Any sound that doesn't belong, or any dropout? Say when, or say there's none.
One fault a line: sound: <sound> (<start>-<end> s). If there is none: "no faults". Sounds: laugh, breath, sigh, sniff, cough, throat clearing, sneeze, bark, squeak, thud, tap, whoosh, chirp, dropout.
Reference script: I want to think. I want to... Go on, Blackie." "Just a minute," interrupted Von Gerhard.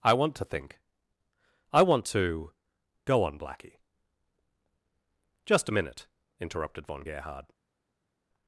no faults